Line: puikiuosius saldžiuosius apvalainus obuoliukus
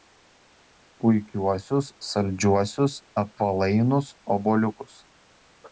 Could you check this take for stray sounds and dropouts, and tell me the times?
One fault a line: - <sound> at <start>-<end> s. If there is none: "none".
none